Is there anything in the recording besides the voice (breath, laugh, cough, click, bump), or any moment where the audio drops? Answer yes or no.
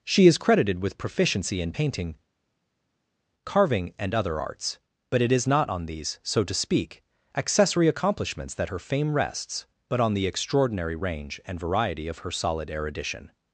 no